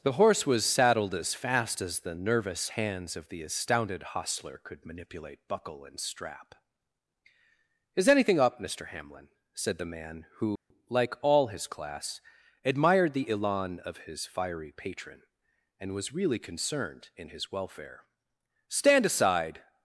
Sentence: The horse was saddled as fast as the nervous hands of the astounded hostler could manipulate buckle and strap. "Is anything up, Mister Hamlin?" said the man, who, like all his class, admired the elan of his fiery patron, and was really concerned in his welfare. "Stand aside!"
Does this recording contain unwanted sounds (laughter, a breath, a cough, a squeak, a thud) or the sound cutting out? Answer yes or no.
yes